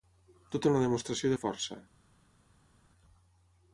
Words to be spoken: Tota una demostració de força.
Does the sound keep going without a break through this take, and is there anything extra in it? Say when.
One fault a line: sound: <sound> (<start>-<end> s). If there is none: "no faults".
no faults